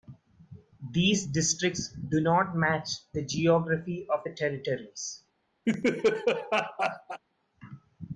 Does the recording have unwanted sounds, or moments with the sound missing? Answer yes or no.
yes